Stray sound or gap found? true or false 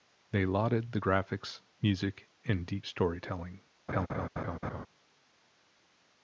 true